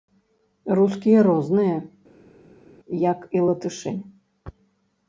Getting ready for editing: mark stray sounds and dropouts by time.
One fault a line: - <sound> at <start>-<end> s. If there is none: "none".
none